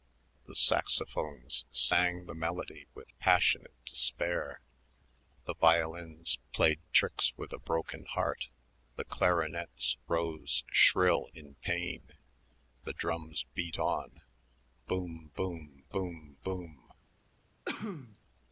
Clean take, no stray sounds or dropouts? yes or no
no